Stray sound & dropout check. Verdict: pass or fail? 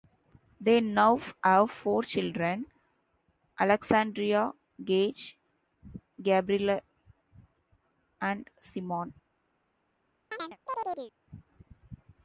fail